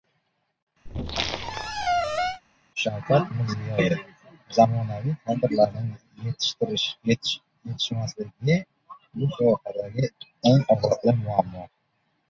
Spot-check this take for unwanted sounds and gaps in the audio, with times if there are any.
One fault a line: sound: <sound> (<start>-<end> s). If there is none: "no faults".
sound: squeak (0.9-2.4 s)